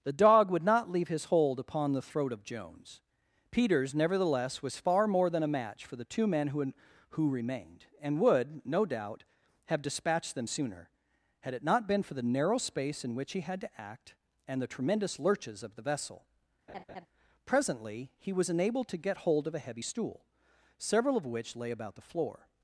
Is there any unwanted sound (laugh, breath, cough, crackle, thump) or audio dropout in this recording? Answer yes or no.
yes